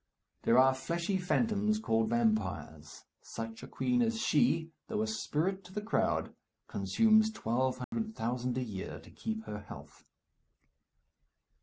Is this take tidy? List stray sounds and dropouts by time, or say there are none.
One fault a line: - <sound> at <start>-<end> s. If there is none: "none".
- dropout at 7.8-7.9 s